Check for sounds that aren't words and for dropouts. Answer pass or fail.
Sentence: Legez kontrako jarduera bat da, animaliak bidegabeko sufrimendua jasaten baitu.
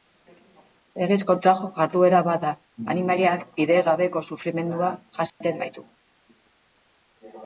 fail